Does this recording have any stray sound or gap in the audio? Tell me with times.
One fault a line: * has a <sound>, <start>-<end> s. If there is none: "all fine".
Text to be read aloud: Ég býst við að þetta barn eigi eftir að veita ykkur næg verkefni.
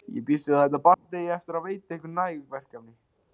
* has a dropout, 0.9-1.1 s